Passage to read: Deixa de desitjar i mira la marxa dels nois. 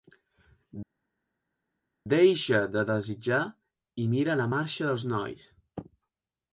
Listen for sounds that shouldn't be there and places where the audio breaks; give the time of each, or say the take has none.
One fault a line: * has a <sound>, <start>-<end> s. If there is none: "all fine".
all fine